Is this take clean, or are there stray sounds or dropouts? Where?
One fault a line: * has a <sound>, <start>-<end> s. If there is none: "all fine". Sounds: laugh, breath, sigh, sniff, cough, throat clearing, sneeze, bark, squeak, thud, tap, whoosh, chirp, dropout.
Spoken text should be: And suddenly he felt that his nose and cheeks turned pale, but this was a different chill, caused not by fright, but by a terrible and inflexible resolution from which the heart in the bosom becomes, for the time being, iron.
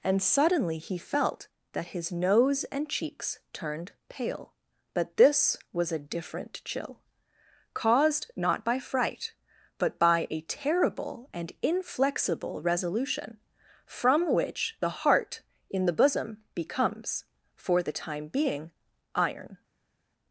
all fine